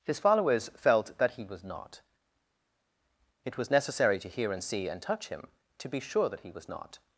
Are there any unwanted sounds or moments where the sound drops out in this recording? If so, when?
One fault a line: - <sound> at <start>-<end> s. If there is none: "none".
none